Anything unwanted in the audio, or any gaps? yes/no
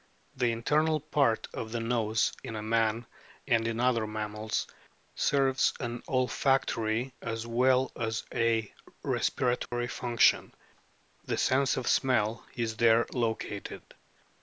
yes